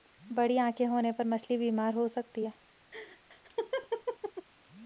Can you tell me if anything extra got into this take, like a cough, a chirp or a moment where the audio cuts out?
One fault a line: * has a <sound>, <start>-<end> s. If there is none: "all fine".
* has a laugh, 2.9-4.5 s